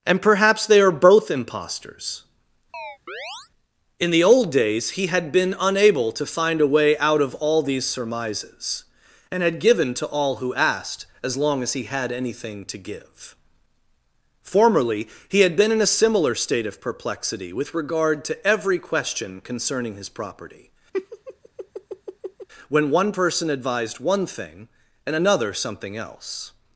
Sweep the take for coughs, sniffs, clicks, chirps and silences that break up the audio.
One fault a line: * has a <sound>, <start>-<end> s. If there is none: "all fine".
* has a chirp, 2.7-3.5 s
* has a laugh, 20.9-22.5 s